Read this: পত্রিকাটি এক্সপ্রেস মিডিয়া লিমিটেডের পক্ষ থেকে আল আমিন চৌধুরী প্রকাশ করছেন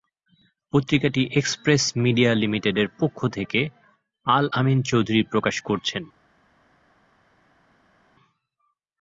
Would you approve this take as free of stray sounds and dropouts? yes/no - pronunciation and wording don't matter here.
yes